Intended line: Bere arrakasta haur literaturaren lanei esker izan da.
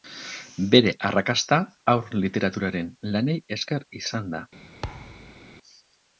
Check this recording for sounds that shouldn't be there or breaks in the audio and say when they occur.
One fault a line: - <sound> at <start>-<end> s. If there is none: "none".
- thud at 4.8-5.5 s